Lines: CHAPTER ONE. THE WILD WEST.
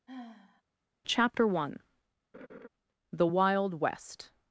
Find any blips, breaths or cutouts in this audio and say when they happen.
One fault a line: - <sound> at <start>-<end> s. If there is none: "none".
- sigh at 0.1-0.6 s
- laugh at 2.3-2.7 s